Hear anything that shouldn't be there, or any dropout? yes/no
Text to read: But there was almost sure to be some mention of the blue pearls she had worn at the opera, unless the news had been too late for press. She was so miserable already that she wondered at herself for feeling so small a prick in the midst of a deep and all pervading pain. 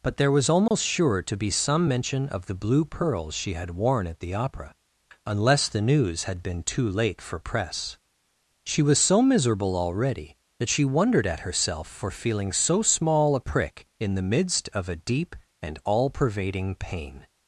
yes